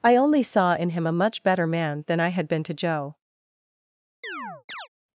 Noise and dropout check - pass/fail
fail